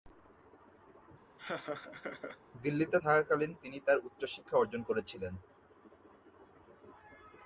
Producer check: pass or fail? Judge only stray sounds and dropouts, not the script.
fail